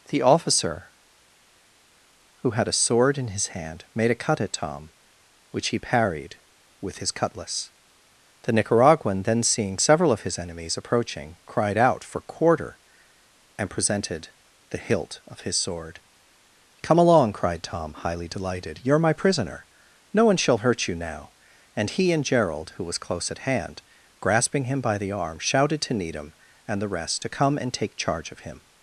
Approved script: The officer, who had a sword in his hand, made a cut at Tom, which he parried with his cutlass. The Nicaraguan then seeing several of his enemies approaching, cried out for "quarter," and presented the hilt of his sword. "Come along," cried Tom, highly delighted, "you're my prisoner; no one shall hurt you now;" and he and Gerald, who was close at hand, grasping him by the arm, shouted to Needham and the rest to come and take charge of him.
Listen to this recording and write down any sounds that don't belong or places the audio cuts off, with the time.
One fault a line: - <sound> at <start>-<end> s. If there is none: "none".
none